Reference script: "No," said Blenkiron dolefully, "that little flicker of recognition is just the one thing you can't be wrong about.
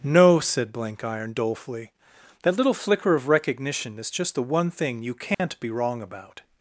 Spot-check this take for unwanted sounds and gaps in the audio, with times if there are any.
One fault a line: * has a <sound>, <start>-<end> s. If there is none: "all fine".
* has a dropout, 5.3-5.4 s